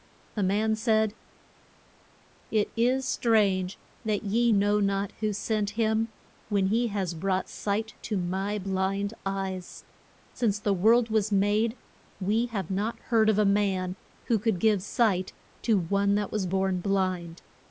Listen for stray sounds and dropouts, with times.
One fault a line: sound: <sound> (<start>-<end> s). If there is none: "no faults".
no faults